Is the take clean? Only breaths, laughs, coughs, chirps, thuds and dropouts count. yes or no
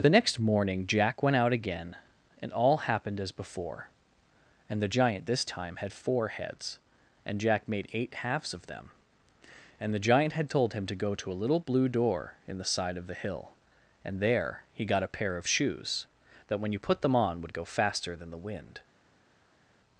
yes